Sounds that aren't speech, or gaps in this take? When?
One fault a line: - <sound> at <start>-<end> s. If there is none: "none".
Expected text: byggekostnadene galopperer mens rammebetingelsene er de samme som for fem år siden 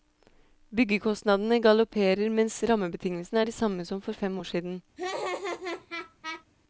- laugh at 5.0-6.4 s